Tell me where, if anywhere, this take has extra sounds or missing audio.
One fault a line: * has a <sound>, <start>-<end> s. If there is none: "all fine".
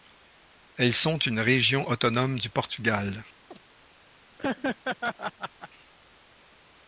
* has a chirp, 3.5-3.6 s
* has a laugh, 4.4-5.7 s